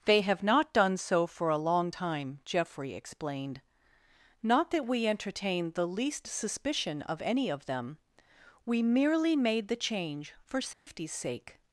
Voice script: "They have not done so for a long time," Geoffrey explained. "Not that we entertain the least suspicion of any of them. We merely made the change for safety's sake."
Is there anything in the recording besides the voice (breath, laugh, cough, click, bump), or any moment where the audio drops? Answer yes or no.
yes